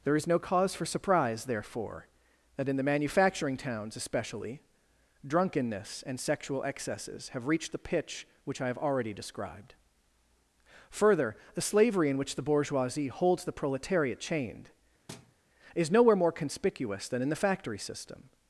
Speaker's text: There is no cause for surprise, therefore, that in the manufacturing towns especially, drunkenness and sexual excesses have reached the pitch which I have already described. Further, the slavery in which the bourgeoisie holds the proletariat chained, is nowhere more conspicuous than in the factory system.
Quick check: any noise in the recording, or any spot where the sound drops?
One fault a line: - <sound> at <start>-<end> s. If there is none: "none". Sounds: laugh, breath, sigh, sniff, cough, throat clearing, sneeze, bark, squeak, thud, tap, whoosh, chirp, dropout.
- thud at 15.1-15.4 s